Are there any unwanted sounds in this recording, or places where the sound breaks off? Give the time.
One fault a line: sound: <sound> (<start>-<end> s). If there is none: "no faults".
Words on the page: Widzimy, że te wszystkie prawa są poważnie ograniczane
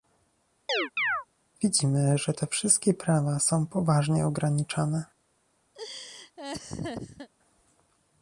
sound: chirp (0.7-1.3 s)
sound: laugh (5.7-7.3 s)